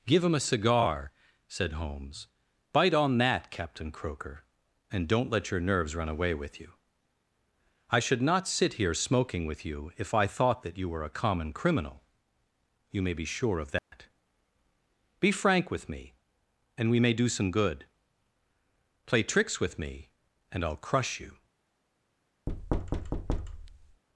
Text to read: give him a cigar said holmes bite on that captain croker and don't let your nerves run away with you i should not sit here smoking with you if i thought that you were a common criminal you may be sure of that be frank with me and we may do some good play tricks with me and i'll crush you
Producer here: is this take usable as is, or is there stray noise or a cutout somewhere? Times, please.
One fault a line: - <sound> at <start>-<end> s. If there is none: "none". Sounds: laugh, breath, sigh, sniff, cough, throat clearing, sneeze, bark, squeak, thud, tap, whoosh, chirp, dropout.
- dropout at 13.8-13.9 s
- thud at 22.5-24.0 s